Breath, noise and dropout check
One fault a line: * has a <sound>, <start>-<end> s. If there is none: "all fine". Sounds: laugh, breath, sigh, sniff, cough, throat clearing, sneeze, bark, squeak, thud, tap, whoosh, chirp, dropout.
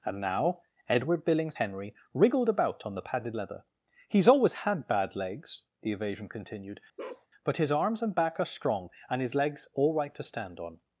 * has a bark, 7.0-7.3 s